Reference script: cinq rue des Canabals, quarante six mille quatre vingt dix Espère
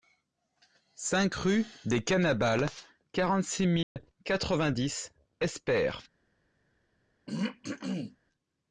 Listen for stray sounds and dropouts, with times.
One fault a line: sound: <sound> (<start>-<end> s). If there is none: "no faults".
sound: dropout (3.8-4.0 s)
sound: throat clearing (7.3-8.2 s)